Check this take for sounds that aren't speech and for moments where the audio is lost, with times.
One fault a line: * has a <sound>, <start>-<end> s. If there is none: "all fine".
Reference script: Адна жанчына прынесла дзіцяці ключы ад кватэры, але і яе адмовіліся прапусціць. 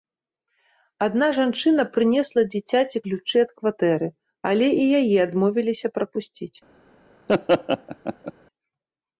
* has a laugh, 7.3-8.3 s